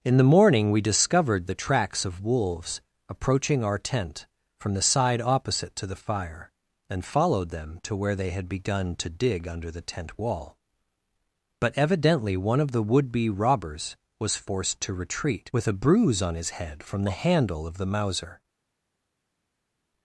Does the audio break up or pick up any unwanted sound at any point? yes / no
no